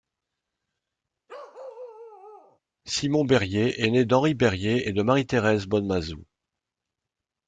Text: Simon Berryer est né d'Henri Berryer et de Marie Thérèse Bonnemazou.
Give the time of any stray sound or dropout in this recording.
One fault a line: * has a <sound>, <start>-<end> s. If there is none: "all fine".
* has a bark, 1.3-2.6 s